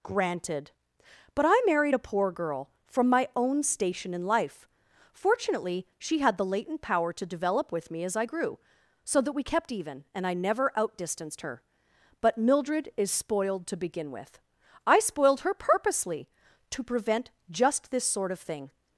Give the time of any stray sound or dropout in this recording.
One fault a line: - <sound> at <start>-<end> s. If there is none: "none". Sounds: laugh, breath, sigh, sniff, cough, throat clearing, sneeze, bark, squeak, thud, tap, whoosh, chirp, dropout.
none